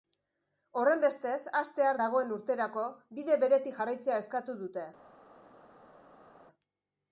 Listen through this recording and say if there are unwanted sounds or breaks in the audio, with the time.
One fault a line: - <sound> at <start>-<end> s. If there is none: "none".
none